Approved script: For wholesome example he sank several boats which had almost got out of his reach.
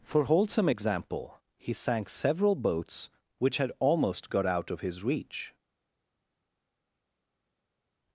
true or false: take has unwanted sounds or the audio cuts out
false